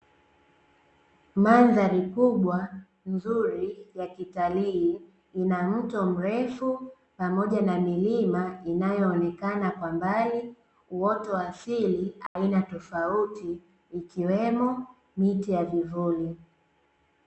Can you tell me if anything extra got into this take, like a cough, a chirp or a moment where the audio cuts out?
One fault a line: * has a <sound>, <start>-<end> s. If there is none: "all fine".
* has a dropout, 12.3-12.4 s